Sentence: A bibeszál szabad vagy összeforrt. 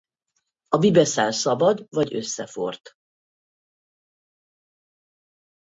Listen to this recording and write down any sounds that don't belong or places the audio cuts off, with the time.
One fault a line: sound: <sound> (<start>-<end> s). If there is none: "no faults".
no faults